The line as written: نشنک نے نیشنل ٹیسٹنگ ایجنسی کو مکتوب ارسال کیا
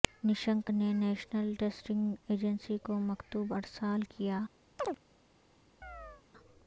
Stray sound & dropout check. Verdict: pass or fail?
fail